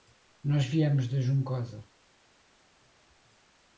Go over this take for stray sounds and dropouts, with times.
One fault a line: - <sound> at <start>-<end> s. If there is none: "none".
none